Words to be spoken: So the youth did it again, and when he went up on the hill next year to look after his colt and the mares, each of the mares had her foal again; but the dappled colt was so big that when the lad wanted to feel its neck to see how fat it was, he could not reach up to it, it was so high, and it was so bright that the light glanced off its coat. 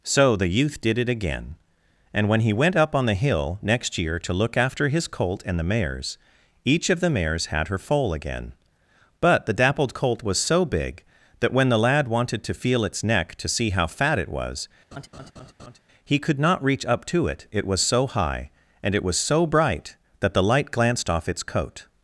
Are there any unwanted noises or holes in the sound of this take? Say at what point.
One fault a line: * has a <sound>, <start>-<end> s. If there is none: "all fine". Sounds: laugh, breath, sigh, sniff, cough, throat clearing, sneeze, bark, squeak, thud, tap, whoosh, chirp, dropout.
* has a laugh, 14.9-15.8 s